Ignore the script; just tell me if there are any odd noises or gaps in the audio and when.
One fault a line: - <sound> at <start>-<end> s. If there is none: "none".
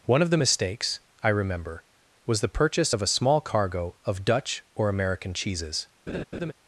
- laugh at 6.1-6.5 s